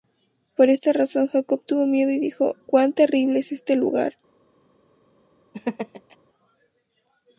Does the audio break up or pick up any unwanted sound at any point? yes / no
yes